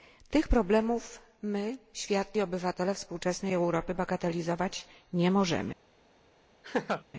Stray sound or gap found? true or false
true